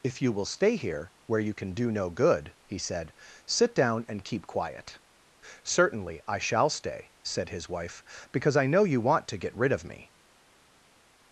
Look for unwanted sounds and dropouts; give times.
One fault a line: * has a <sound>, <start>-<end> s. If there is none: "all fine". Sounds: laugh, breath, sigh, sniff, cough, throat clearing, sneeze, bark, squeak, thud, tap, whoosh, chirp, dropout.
all fine